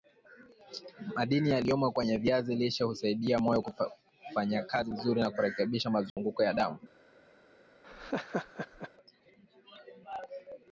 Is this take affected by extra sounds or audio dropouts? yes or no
yes